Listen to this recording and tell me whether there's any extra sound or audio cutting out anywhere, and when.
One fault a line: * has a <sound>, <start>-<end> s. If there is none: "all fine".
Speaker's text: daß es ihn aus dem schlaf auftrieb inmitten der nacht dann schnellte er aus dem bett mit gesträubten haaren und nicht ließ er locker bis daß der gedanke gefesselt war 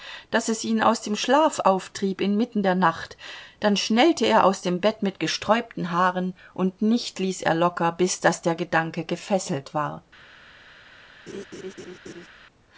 * has a laugh, 11.3-12.3 s